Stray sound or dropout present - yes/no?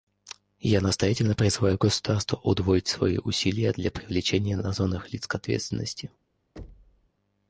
yes